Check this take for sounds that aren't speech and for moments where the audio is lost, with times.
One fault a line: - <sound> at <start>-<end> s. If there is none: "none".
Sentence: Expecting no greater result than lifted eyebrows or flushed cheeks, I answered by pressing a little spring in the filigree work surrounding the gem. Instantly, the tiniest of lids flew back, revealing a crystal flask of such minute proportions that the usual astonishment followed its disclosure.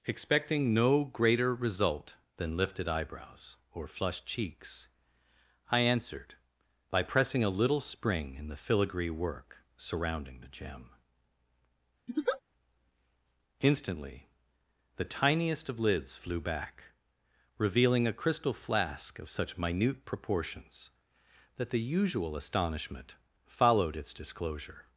- laugh at 12.1-12.4 s